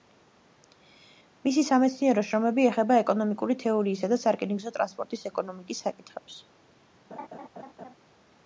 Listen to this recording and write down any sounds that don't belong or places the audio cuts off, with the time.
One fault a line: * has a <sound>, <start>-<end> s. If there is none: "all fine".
* has a laugh, 7.1-8.0 s